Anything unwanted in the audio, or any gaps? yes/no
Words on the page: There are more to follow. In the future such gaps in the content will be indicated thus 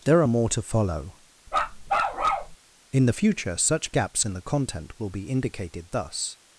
yes